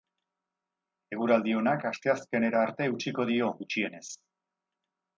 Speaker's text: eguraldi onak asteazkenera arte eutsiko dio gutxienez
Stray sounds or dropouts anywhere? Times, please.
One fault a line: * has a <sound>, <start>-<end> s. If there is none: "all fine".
all fine